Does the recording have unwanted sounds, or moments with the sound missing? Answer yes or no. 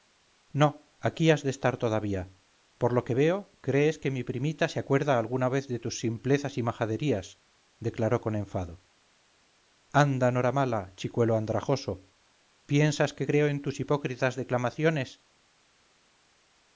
no